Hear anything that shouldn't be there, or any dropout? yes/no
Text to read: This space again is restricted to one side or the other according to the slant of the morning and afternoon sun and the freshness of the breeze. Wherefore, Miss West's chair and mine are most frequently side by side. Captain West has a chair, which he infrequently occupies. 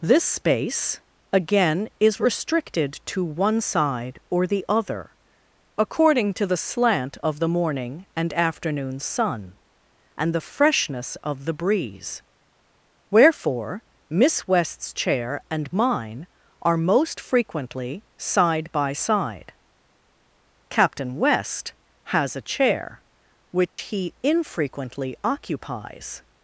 yes